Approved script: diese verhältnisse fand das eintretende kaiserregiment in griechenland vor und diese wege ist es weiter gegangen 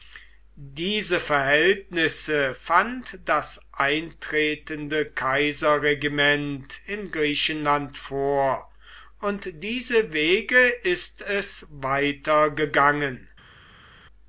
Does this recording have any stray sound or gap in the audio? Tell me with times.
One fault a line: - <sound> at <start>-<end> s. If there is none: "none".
none